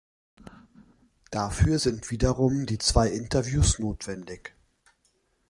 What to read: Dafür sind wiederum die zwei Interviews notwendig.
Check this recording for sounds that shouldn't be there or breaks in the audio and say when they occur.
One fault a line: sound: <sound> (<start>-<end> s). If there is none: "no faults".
no faults